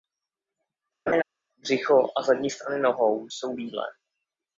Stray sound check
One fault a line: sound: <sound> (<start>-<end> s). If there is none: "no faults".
sound: laugh (1.1-1.2 s)